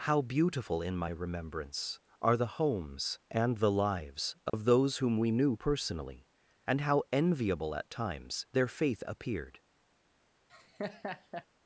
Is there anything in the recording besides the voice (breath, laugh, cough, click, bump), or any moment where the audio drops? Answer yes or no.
yes